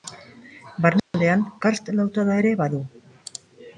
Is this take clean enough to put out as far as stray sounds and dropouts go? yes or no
no